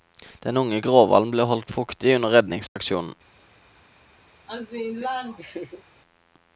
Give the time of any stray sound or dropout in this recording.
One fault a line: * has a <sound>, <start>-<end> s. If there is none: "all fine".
* has a dropout, 2.7-2.8 s
* has a laugh, 4.5-5.8 s